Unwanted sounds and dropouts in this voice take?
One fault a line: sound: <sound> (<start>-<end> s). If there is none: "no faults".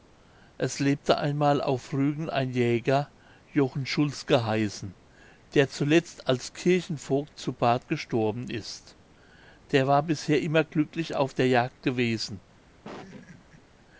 sound: laugh (12.8-13.6 s)